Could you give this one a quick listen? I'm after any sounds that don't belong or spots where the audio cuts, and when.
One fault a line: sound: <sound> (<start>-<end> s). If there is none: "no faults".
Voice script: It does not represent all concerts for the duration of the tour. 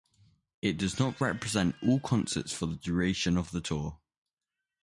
no faults